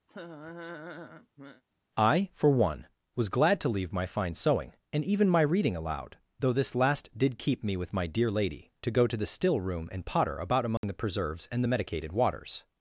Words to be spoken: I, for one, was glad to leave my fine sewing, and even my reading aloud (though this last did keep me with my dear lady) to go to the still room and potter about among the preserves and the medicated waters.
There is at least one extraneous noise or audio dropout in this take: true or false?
true